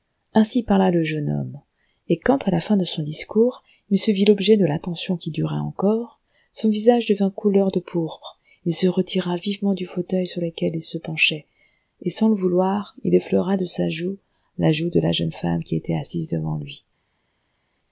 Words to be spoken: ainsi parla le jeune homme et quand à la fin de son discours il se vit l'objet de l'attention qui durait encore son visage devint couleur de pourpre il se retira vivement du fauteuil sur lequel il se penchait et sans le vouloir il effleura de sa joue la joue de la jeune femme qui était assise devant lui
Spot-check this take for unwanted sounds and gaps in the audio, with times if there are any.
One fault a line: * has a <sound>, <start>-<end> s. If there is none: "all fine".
all fine